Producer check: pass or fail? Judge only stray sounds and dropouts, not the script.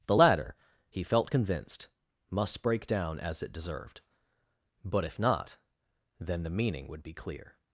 pass